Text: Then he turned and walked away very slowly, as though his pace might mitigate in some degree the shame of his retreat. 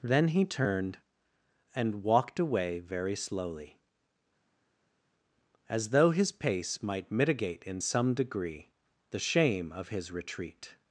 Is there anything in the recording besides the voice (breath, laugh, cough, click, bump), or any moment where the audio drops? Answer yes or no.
no